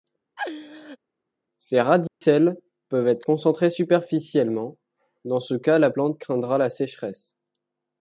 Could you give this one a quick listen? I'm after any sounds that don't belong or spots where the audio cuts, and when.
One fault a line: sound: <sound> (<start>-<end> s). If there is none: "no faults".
sound: laugh (0.4-1.0 s)
sound: dropout (2.1-2.2 s)